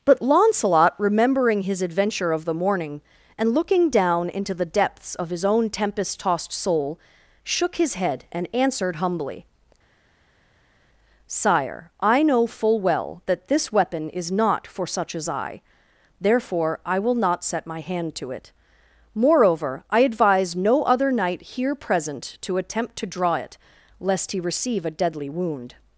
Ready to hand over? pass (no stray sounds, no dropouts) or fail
pass